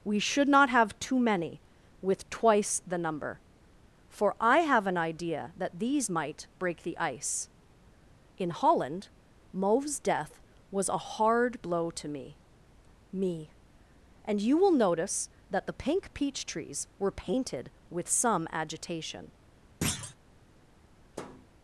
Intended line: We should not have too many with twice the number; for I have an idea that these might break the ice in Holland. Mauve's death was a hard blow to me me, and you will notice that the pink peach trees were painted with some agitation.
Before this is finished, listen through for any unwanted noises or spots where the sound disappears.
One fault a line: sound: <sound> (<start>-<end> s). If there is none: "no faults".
sound: thud (19.8-20.2 s)
sound: thud (21.1-21.5 s)